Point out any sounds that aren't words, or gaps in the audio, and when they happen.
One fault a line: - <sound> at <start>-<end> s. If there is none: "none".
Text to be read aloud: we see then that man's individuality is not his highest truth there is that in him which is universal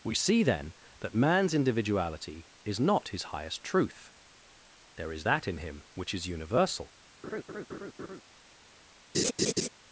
- laugh at 7.2-8.2 s
- laugh at 9.1-9.7 s